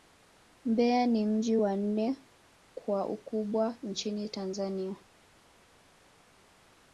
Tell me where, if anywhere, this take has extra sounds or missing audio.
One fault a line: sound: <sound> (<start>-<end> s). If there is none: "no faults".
no faults